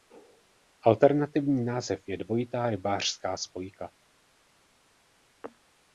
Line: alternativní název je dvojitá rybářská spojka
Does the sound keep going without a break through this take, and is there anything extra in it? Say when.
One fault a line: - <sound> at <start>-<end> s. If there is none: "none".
none